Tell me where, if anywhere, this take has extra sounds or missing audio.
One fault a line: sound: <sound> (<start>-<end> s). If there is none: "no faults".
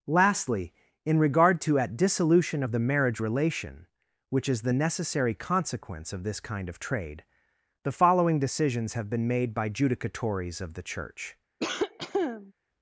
sound: cough (11.6-12.5 s)